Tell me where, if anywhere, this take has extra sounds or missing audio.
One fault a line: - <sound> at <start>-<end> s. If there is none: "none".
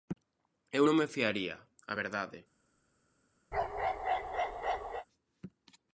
- bark at 3.5-5.1 s